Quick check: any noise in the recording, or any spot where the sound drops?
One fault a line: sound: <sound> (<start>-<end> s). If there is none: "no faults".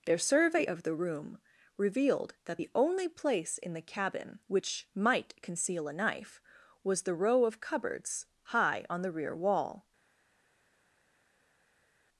no faults